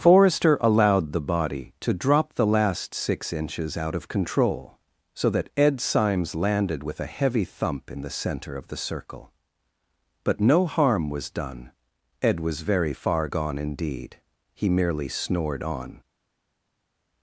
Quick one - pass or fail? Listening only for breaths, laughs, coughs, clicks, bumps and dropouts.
pass